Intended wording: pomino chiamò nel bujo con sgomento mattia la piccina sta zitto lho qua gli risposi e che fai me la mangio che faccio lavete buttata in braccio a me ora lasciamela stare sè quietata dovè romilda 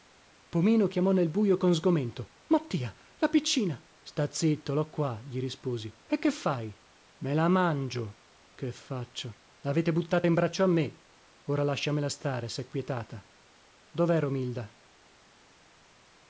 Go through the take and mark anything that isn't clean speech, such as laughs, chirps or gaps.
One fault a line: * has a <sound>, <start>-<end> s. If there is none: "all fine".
all fine